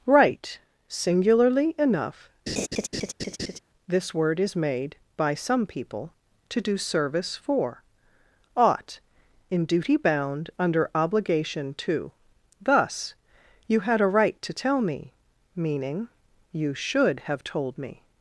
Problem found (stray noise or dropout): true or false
true